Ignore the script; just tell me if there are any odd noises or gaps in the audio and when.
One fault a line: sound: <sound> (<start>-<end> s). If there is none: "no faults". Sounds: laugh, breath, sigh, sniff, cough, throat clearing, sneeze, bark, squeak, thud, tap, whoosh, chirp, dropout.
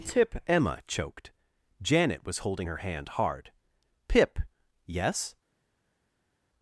no faults